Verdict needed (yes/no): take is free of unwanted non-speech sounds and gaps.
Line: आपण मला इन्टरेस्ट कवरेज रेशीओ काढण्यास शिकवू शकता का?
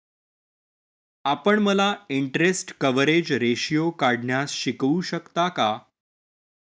yes